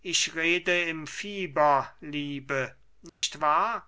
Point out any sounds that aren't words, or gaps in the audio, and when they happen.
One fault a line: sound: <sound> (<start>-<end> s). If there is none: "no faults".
sound: dropout (3.1-3.2 s)